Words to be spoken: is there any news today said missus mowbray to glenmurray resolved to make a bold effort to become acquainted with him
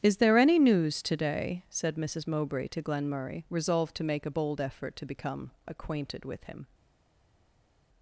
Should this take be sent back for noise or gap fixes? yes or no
no